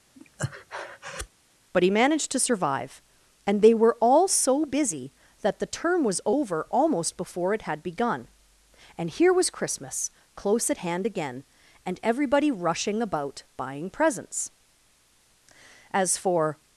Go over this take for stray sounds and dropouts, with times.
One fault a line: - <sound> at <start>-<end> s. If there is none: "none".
- breath at 0.1-1.3 s